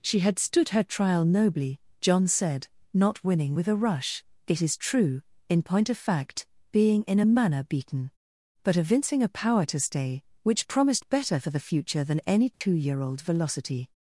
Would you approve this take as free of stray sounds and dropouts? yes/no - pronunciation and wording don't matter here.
no